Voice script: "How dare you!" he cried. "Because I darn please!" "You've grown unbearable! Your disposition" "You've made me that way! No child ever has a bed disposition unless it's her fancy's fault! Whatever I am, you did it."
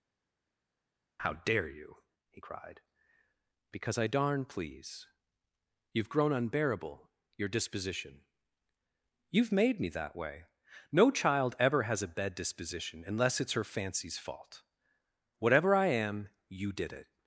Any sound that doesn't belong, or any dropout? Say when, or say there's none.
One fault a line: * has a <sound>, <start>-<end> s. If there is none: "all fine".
all fine